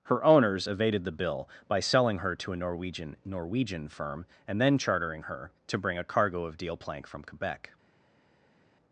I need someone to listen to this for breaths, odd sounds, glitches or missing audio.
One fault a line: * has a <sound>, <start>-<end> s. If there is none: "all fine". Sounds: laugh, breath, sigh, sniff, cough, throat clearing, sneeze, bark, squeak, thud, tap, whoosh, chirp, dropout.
all fine